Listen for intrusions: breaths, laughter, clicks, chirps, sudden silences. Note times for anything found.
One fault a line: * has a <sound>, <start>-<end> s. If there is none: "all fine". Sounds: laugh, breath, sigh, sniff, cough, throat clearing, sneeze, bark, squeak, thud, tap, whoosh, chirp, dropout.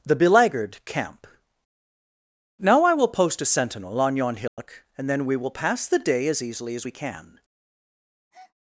* has a dropout, 4.5-4.6 s
* has a breath, 8.3-8.5 s